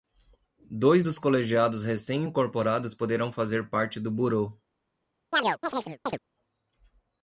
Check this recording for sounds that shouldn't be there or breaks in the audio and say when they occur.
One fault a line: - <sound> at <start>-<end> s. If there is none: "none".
- chirp at 5.3-6.2 s